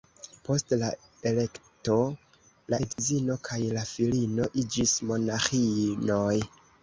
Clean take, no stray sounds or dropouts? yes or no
no